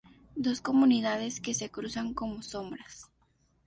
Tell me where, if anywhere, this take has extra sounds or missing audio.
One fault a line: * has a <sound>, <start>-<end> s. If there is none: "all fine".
all fine